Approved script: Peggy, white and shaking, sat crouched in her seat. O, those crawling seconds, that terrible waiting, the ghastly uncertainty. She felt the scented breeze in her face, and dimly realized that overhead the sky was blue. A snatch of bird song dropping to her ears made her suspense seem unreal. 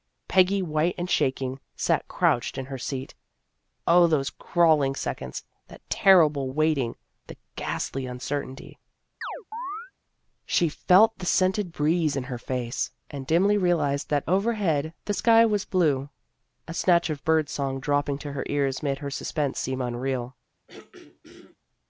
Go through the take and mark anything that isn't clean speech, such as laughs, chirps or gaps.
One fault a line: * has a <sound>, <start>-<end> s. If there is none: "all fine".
* has a chirp, 9.2-9.9 s
* has a throat clearing, 20.7-21.6 s